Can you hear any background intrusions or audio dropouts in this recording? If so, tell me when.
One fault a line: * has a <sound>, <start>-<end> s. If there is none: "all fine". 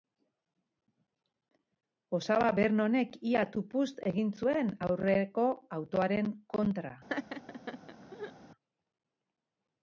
* has a laugh, 7.1-8.3 s